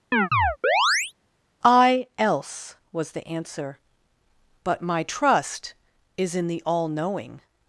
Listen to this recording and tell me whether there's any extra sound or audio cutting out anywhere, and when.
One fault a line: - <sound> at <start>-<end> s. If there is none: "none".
- chirp at 0.1-1.1 s